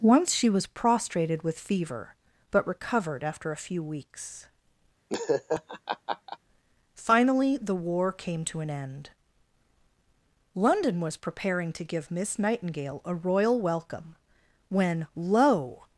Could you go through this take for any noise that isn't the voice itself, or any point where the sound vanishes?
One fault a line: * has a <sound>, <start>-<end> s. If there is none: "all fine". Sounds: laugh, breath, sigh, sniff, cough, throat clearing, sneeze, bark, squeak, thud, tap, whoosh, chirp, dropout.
* has a laugh, 5.1-6.4 s